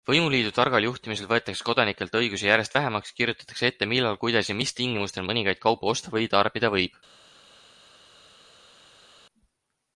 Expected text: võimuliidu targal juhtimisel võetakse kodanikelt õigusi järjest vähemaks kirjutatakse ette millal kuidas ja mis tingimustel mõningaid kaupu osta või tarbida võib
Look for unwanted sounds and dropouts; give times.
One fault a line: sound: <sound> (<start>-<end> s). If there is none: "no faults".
no faults